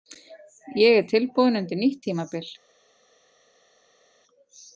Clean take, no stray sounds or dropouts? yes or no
yes